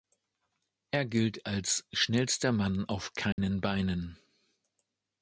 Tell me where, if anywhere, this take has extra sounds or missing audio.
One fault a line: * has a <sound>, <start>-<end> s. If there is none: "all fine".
* has a dropout, 3.3-3.4 s